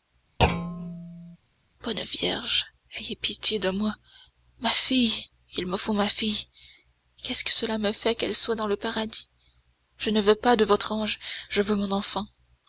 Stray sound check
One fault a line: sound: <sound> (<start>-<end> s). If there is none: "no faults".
sound: thud (0.4-1.4 s)